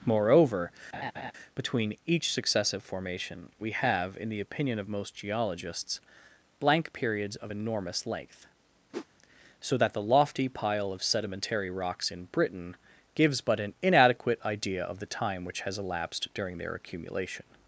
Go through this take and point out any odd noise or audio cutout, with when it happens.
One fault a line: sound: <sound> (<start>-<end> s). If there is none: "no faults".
sound: laugh (0.9-1.3 s)
sound: whoosh (8.9-9.1 s)